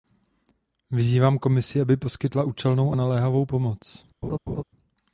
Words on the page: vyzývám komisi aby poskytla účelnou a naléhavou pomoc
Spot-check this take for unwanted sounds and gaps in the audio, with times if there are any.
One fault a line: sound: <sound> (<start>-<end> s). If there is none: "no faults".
sound: laugh (4.2-4.6 s)